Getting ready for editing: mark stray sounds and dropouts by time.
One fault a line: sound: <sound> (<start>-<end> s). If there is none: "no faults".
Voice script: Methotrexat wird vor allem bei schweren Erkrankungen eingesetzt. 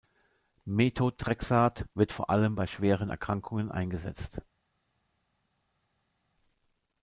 no faults